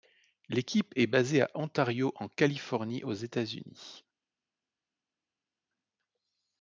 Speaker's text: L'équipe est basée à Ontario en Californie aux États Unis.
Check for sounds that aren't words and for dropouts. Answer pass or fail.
pass